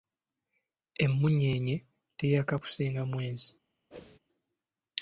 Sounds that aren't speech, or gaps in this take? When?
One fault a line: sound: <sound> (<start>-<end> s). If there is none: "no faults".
sound: whoosh (3.9-4.2 s)